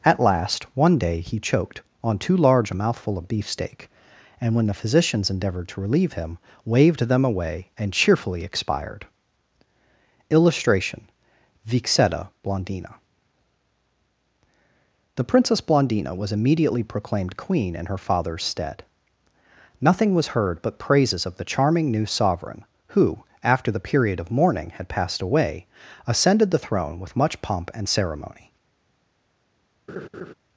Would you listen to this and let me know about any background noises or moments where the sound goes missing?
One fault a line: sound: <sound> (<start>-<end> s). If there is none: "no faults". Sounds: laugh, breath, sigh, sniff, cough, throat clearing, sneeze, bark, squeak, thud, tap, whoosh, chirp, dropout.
sound: laugh (29.9-30.3 s)